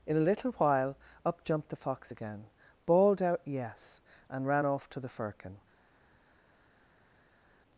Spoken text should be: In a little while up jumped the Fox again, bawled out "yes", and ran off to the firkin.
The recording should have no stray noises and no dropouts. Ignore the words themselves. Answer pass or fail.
pass